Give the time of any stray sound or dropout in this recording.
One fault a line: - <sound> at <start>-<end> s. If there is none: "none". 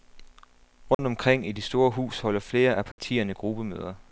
- dropout at 0.9-1.0 s
- dropout at 2.9-3.0 s